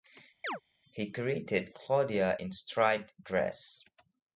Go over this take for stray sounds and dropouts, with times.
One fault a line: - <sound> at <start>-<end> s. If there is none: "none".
- chirp at 0.4-0.6 s